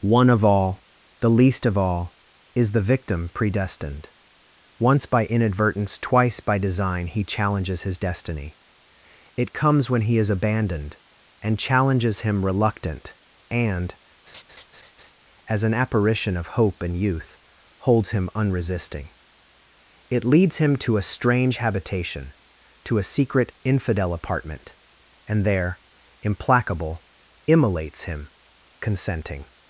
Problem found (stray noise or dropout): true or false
true